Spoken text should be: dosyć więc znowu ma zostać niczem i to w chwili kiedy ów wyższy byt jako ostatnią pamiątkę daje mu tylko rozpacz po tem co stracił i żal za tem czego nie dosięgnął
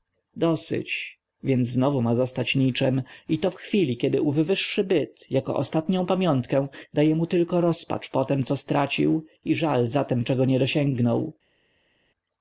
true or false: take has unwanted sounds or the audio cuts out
false